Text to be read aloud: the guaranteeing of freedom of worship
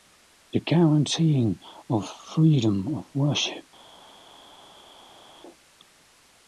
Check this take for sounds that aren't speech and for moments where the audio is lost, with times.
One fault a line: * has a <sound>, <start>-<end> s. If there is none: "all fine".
all fine